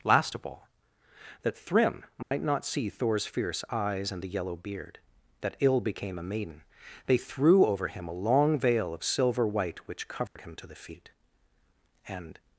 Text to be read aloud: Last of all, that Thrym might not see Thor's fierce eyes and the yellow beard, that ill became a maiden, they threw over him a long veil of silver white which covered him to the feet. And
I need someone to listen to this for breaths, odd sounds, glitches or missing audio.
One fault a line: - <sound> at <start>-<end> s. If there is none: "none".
- dropout at 2.2-2.3 s
- dropout at 10.3-10.4 s